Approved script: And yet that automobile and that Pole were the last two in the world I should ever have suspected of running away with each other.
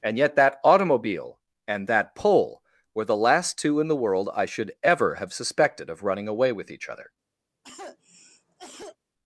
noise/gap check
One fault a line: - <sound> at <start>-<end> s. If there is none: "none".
- cough at 7.6-9.0 s